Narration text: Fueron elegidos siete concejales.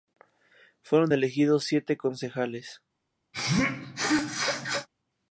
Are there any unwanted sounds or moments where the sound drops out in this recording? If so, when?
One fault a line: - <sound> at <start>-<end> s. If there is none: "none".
- sneeze at 3.3-4.9 s